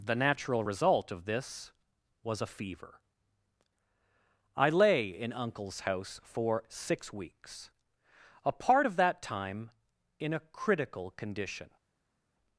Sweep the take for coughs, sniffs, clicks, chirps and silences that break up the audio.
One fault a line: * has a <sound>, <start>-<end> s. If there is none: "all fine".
all fine